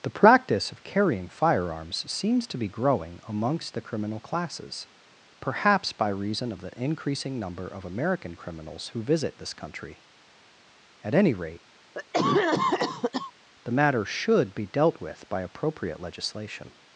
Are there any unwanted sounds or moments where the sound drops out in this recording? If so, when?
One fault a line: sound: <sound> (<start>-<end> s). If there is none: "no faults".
sound: cough (11.9-13.3 s)